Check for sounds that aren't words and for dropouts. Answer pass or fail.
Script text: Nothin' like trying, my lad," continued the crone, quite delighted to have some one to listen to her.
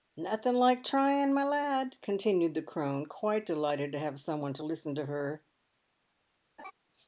fail